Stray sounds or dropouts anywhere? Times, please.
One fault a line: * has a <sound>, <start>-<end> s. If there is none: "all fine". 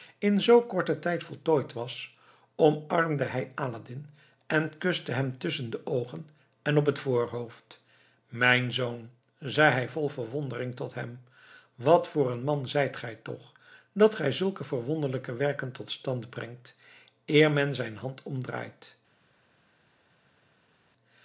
all fine